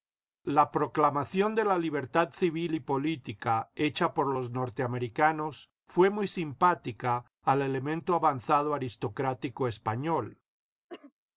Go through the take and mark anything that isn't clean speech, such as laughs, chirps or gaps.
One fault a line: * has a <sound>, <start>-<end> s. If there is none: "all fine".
* has a cough, 10.9-11.1 s